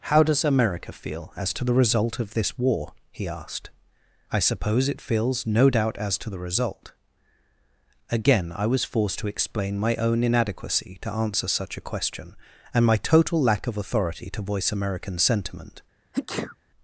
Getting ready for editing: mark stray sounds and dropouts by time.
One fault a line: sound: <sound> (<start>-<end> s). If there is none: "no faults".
sound: sneeze (16.1-16.6 s)